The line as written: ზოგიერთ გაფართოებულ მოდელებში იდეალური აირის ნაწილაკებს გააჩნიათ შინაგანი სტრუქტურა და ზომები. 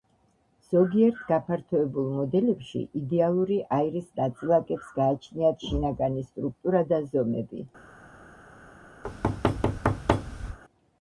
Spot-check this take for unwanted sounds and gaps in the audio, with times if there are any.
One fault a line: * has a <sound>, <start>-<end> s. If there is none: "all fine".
* has a thud, 9.0-10.6 s